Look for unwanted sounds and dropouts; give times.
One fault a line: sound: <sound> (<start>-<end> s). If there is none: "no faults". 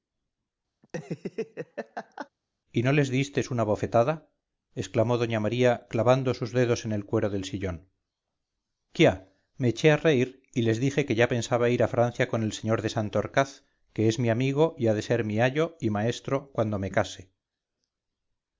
sound: laugh (0.8-2.3 s)